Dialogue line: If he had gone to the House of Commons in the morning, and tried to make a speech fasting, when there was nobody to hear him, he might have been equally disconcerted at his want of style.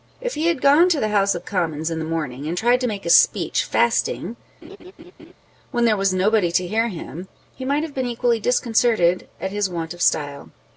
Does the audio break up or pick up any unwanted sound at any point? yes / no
yes